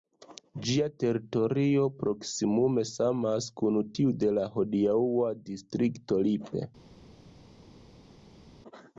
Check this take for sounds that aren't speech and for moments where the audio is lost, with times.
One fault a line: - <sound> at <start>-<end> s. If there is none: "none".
none